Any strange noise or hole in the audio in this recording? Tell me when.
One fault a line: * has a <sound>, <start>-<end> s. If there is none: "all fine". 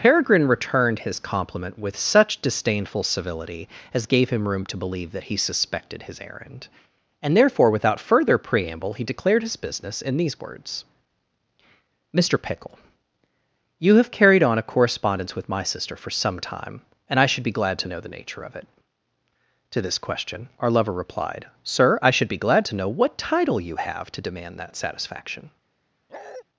* has a bark, 26.1-26.4 s